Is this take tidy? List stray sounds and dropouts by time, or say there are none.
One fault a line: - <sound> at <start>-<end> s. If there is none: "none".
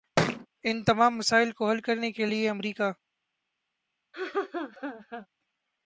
- thud at 0.2-0.5 s
- laugh at 4.1-5.3 s